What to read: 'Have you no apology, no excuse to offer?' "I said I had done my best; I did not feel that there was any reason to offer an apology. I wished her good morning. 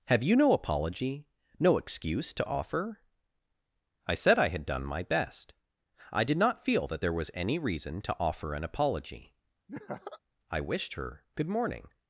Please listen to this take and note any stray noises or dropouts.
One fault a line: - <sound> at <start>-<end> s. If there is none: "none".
- laugh at 9.7-10.2 s